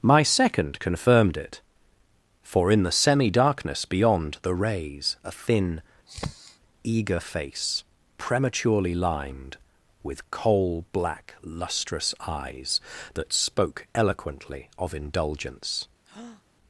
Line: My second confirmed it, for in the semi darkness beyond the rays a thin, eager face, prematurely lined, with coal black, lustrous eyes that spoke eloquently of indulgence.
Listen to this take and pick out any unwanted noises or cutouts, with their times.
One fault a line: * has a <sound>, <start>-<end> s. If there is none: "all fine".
* has a sniff, 6.1-6.6 s
* has a breath, 16.0-16.4 s